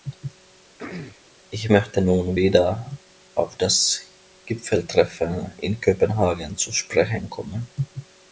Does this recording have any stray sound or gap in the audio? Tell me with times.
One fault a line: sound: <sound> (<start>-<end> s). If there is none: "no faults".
sound: throat clearing (0.8-1.2 s)